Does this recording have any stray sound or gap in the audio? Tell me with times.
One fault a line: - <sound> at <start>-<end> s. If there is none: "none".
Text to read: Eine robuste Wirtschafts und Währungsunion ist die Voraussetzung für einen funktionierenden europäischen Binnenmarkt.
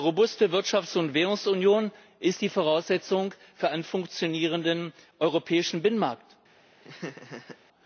- laugh at 6.8-7.6 s